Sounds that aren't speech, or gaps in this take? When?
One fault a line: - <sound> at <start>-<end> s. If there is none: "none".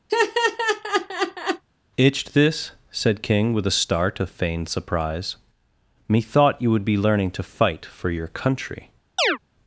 - laugh at 0.1-1.6 s
- chirp at 9.2-9.4 s